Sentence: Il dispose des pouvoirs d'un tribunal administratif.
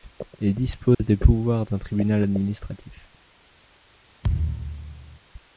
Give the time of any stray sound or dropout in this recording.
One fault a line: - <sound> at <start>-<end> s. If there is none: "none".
- dropout at 0.9-1.0 s
- thud at 4.2-5.2 s